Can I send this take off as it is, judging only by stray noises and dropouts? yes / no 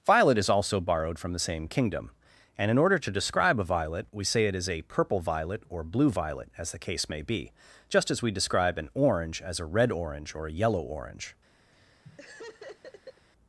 no